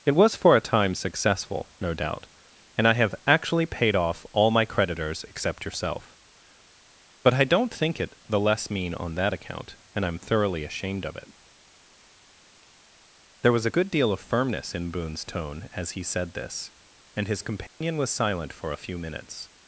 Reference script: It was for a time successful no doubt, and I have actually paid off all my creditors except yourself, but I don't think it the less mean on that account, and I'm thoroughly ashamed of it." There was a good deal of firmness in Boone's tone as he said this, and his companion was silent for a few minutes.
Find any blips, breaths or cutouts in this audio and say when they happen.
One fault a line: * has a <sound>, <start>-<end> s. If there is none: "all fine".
* has a dropout, 17.7-17.8 s